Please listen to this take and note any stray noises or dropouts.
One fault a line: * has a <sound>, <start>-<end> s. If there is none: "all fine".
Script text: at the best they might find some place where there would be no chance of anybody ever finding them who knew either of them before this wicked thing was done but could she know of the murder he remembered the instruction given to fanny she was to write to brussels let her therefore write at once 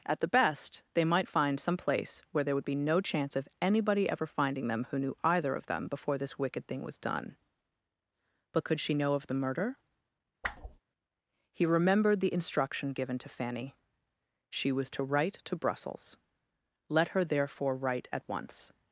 * has a whoosh, 10.4-10.8 s